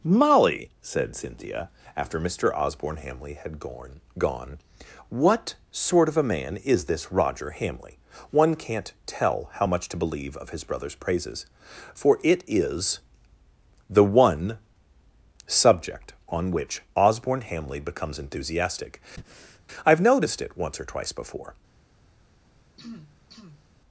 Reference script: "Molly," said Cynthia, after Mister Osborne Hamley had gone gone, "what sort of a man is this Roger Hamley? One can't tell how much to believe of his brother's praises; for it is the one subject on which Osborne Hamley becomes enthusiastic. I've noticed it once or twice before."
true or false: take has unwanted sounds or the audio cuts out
true